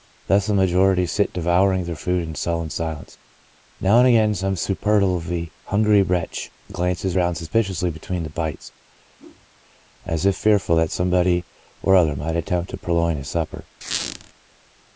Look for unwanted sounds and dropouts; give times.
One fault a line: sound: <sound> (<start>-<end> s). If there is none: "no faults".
sound: whoosh (9.2-9.5 s)
sound: squeak (13.8-14.3 s)